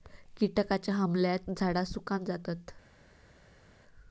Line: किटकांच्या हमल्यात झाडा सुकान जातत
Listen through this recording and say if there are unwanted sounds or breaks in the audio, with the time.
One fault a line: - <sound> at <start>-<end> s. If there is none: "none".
none